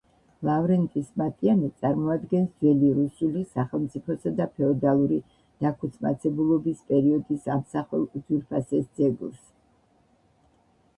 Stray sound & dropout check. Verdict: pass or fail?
pass